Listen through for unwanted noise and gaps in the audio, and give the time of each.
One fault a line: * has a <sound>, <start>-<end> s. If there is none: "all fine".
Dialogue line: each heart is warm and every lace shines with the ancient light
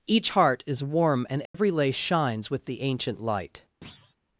* has a dropout, 1.5-1.5 s
* has a thud, 3.8-4.2 s